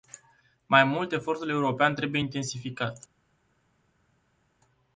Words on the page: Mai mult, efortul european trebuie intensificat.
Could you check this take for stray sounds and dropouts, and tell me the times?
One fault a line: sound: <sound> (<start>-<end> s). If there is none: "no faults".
no faults